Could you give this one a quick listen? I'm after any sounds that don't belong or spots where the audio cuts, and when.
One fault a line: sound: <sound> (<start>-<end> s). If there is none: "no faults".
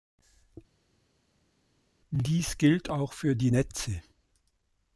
no faults